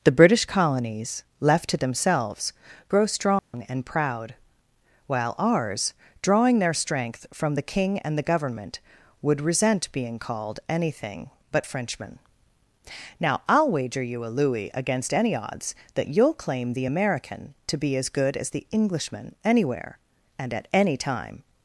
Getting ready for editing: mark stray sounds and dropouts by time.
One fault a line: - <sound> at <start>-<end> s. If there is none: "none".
- dropout at 3.4-3.5 s